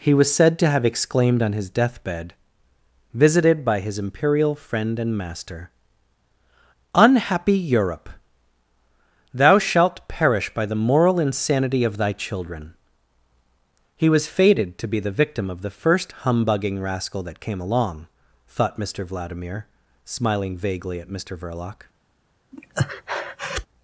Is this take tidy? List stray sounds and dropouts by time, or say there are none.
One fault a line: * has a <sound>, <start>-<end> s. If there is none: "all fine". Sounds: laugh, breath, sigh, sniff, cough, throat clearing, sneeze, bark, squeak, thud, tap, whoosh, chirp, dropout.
* has a breath, 22.5-23.7 s